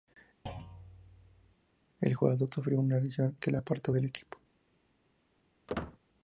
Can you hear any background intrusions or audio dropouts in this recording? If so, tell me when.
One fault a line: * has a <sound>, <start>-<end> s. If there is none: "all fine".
* has a thud, 0.5-1.6 s
* has a squeak, 5.7-6.0 s